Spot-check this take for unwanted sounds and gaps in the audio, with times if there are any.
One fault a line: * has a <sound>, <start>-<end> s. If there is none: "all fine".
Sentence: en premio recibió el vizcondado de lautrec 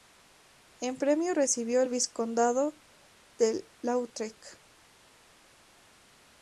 all fine